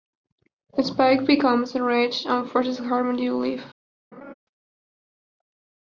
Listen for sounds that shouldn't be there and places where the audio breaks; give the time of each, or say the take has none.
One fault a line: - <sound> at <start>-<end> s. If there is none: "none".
- laugh at 4.1-4.3 s